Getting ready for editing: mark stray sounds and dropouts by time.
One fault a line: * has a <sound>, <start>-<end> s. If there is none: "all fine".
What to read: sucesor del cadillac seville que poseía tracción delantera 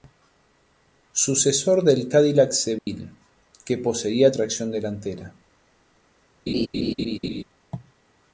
* has a dropout, 2.8-2.9 s
* has a laugh, 6.5-7.4 s